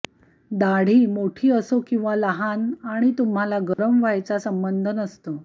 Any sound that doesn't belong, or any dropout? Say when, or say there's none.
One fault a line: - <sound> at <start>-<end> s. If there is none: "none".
- dropout at 3.7-3.8 s